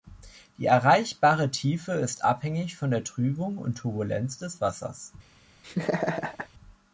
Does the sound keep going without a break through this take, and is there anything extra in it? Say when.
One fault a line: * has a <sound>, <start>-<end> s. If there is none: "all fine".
* has a laugh, 5.6-6.5 s